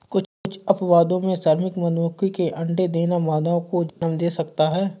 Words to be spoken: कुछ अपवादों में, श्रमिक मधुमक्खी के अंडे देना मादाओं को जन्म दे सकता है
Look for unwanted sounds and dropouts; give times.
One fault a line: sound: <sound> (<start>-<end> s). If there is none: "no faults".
sound: dropout (3.9-4.0 s)